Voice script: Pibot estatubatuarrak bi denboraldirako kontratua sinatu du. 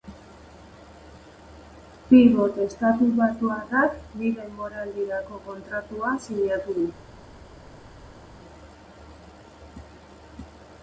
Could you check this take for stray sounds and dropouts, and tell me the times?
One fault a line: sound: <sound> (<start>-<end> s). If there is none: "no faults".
no faults